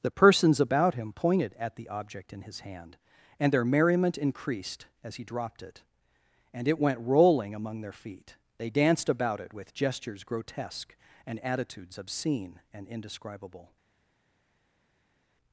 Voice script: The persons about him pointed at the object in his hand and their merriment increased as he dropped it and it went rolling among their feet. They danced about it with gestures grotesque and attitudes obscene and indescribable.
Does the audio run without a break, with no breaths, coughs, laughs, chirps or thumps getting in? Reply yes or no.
yes